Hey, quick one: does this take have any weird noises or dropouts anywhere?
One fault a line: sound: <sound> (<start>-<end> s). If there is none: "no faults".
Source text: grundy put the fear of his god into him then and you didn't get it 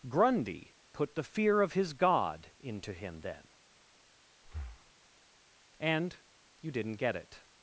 sound: breath (4.4-4.9 s)